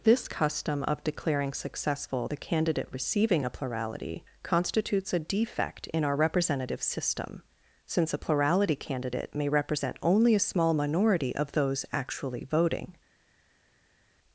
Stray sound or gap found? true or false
false